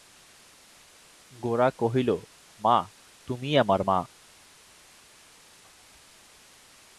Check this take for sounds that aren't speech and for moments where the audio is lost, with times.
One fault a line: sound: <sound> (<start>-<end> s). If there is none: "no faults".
no faults